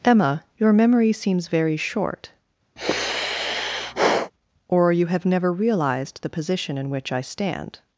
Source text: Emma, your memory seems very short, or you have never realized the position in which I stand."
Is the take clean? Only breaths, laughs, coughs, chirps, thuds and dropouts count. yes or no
no